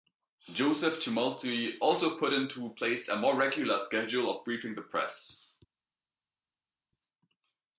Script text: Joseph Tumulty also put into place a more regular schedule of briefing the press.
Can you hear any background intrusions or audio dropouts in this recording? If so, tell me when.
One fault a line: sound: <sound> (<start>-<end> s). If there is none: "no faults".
no faults